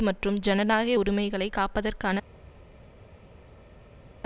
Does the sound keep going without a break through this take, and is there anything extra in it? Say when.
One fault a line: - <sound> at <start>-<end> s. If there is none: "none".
none